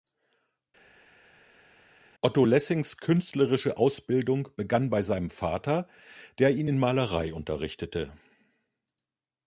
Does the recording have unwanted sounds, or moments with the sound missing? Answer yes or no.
no